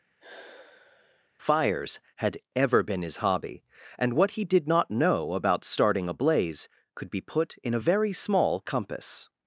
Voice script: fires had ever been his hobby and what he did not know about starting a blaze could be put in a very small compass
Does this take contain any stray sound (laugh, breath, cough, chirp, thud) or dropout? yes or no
yes